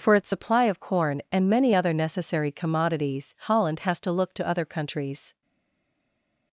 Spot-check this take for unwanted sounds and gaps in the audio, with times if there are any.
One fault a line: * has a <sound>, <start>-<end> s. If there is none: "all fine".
all fine